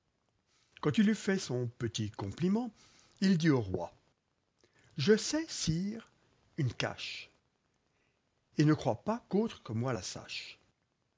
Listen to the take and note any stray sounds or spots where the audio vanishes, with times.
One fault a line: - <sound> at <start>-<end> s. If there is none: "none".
none